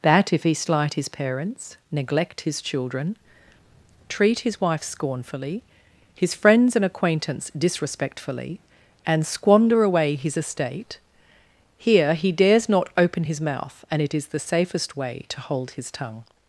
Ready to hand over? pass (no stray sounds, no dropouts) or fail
pass